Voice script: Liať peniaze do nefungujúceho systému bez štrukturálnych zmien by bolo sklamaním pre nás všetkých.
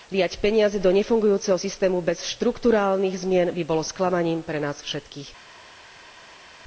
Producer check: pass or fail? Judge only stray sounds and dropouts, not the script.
pass